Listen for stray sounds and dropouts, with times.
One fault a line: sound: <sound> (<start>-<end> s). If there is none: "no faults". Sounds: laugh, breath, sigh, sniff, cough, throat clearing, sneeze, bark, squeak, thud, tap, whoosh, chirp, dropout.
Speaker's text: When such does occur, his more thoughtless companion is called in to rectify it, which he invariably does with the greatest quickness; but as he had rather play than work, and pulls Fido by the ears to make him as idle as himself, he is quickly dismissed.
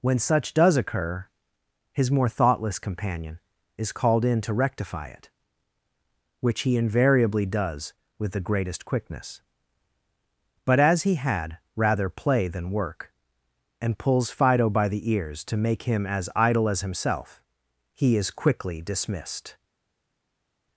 no faults